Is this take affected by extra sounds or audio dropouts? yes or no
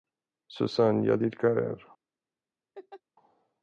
yes